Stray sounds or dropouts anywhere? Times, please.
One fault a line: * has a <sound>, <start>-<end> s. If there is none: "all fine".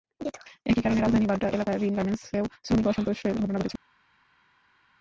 all fine